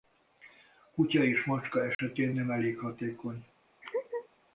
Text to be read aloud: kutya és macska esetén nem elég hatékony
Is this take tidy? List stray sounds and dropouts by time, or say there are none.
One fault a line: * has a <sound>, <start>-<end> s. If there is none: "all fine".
* has a dropout, 1.9-2.0 s
* has a laugh, 3.8-4.3 s